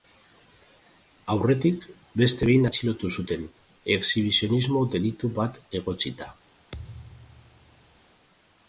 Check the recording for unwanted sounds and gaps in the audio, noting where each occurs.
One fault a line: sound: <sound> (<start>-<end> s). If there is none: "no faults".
sound: thud (6.7-8.0 s)